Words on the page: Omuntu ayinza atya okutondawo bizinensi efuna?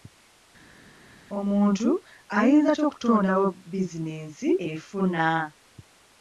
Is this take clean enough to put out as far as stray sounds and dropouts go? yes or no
yes